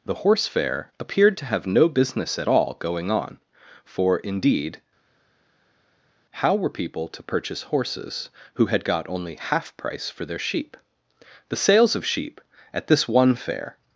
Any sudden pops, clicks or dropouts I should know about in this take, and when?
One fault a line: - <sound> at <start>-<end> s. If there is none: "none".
none